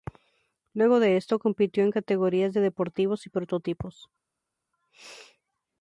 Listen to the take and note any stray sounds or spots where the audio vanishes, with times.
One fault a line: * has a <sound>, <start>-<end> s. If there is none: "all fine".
all fine